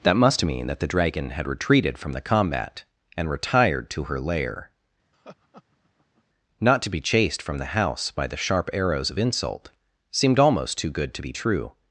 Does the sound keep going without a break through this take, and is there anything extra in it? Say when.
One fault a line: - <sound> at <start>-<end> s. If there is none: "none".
- laugh at 5.1-6.2 s